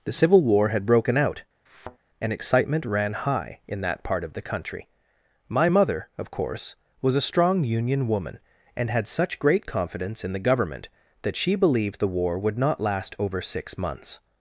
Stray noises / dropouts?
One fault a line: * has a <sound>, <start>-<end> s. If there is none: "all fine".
* has a thud, 1.7-2.0 s